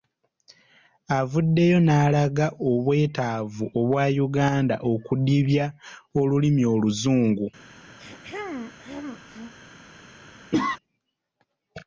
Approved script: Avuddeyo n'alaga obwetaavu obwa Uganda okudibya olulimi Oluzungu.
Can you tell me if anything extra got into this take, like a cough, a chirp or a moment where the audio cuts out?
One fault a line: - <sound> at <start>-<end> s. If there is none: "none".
- throat clearing at 8.0-9.5 s
- cough at 10.5-10.8 s